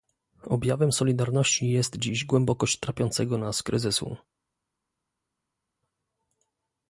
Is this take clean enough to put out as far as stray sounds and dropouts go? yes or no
yes